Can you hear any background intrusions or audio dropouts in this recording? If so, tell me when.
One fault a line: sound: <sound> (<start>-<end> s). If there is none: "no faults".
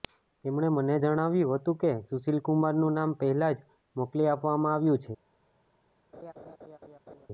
sound: laugh (6.1-7.3 s)